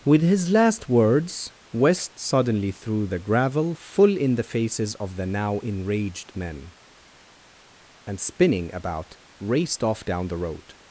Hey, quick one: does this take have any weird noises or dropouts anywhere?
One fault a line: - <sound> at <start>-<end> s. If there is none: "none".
none